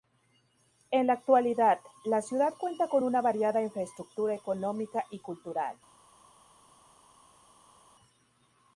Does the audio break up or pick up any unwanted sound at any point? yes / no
no